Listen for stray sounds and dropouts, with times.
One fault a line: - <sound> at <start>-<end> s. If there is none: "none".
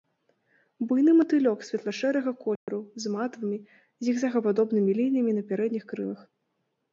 - dropout at 2.6-2.7 s